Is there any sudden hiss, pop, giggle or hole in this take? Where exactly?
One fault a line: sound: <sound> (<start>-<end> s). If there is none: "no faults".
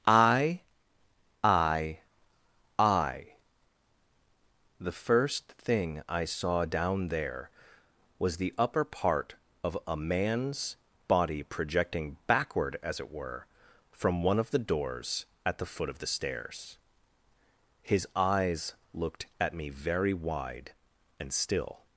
no faults